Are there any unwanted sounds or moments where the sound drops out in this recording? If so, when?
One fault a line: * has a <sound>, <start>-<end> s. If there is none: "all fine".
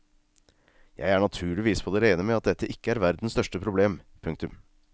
all fine